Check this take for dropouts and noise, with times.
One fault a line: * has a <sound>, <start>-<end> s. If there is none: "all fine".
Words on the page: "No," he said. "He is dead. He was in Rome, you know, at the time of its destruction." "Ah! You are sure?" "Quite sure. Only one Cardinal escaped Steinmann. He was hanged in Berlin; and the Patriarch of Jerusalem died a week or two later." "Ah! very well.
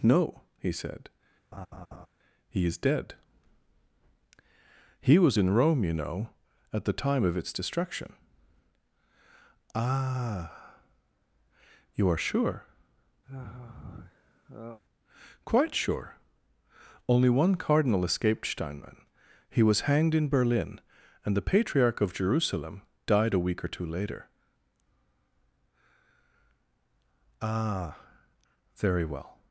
* has a laugh, 1.5-2.1 s
* has a sigh, 13.3-14.8 s